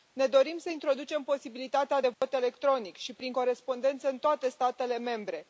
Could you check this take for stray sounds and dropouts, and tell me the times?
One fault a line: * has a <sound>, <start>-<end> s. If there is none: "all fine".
* has a dropout, 2.1-2.2 s